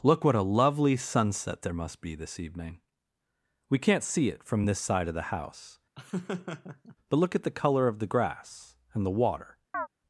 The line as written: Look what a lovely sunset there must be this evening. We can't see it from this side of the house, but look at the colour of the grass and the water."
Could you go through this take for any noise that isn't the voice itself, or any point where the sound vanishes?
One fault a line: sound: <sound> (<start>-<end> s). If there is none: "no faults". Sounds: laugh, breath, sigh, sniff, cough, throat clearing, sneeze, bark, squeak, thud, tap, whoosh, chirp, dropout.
sound: laugh (5.9-7.0 s)
sound: chirp (9.7-9.9 s)